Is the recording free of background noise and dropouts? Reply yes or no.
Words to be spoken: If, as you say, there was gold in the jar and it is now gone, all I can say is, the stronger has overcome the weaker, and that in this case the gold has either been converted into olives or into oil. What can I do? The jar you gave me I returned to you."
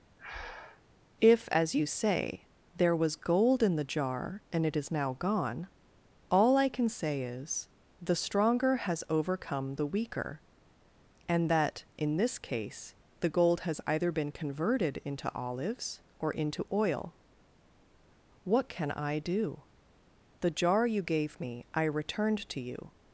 no